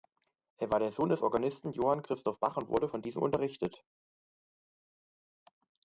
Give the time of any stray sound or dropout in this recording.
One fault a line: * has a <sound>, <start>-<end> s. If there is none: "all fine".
all fine